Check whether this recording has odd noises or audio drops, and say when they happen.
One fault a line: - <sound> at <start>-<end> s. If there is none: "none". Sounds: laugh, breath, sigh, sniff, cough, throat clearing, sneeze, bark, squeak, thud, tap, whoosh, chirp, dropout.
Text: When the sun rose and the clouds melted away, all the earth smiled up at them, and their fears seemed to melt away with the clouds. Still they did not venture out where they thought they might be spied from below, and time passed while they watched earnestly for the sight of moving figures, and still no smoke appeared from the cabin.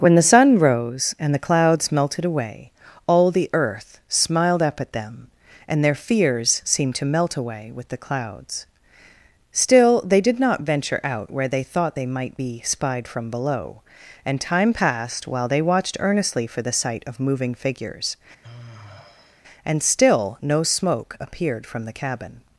- sigh at 18.4-19.4 s